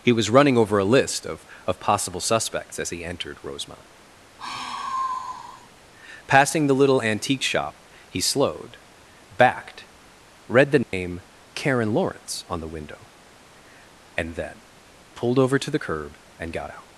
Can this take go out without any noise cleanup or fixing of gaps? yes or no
no